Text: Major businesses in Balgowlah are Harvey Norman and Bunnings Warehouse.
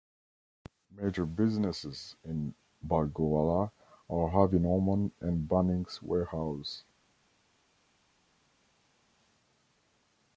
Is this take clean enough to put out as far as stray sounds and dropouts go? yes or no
yes